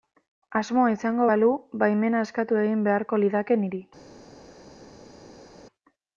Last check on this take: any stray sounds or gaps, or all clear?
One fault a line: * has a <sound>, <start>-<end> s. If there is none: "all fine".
all fine